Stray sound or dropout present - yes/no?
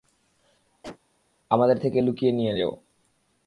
yes